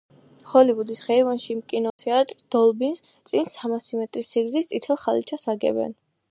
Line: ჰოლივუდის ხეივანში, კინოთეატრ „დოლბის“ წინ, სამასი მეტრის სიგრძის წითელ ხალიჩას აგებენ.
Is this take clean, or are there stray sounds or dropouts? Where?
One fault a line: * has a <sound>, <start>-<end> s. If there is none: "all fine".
* has a dropout, 1.9-2.0 s